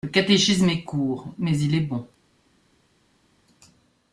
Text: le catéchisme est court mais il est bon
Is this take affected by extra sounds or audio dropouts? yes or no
no